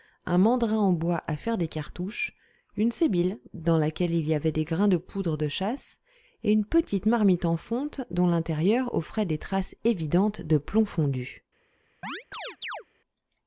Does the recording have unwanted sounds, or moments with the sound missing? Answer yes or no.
yes